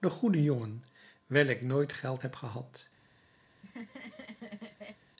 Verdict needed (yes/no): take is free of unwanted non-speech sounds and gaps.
no